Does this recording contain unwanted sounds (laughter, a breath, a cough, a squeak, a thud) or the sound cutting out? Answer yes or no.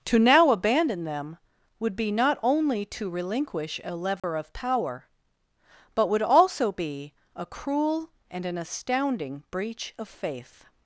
yes